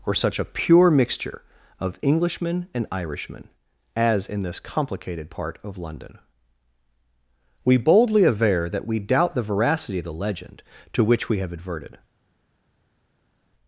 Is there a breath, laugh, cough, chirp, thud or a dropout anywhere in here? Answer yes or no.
no